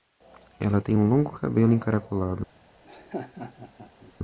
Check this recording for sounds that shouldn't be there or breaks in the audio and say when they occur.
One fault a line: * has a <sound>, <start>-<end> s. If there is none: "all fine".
* has a laugh, 2.8-4.1 s